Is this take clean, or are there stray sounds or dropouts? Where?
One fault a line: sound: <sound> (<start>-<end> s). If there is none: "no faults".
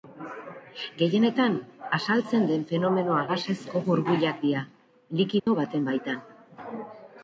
sound: dropout (5.4-5.5 s)